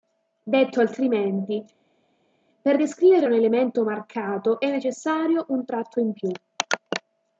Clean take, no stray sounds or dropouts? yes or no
yes